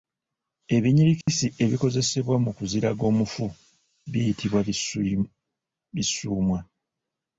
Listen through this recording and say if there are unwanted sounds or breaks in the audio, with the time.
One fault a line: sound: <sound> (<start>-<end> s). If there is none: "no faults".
sound: dropout (1.2-1.3 s)